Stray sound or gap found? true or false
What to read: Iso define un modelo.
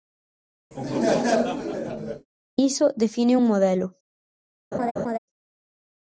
true